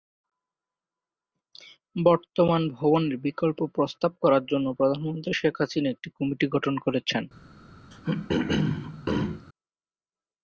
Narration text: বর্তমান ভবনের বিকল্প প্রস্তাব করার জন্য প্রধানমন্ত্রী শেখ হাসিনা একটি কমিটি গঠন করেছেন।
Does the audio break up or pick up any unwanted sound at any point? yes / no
yes